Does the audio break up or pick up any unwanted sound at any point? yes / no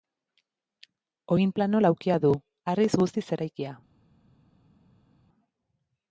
no